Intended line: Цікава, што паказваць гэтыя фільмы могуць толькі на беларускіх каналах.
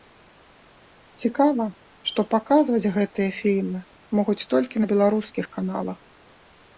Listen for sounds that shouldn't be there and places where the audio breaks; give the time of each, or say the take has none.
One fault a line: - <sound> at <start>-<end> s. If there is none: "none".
none